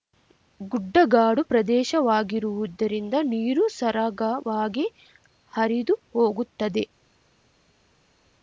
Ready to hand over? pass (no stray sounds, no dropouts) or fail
pass